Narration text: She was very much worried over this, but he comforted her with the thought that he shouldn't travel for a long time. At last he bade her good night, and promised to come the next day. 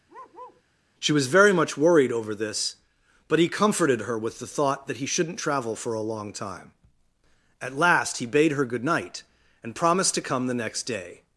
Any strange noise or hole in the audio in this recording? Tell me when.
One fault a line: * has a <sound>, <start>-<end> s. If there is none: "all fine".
* has a bark, 0.1-0.6 s